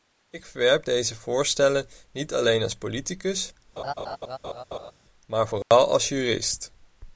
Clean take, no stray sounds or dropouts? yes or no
no